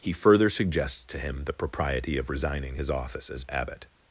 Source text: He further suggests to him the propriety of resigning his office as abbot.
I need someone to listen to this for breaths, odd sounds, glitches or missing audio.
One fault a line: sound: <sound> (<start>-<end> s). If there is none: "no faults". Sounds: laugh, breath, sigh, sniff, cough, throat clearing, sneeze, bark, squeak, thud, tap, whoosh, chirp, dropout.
no faults